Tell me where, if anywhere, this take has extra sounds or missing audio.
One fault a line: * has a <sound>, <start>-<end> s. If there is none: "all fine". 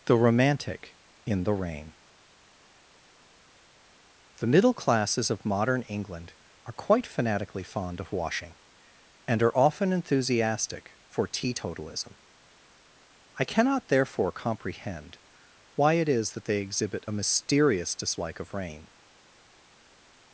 all fine